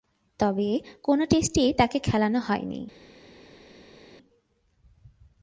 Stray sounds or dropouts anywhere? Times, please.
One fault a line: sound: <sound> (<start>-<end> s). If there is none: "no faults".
no faults